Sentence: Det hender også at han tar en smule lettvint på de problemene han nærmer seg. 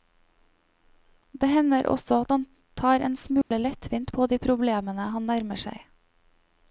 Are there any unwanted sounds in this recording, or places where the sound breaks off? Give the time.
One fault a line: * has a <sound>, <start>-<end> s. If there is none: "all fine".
* has a dropout, 3.4-3.5 s